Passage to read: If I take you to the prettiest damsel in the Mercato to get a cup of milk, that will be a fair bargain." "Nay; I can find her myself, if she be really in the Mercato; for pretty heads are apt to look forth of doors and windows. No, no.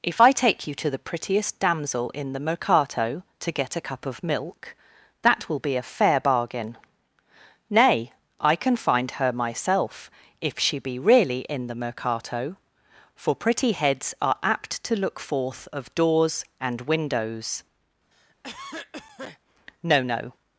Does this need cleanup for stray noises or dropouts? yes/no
yes